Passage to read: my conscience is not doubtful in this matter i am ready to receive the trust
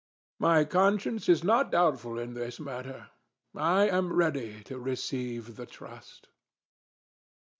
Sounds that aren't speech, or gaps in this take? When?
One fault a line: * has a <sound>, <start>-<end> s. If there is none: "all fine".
all fine